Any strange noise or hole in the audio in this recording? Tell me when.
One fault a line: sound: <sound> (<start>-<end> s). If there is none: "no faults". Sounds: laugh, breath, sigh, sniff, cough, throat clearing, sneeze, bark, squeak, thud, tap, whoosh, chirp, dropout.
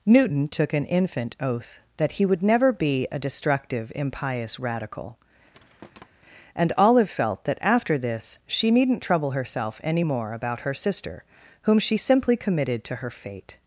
sound: thud (5.5-6.1 s)